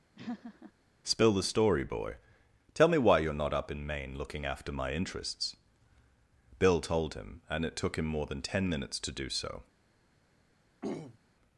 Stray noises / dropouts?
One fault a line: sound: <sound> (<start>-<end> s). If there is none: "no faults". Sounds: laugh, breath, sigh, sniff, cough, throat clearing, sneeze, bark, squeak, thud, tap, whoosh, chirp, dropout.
sound: laugh (0.2-0.7 s)
sound: throat clearing (10.8-11.2 s)